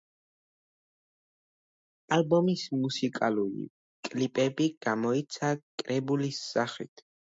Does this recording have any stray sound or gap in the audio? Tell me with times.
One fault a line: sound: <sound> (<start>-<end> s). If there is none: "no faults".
no faults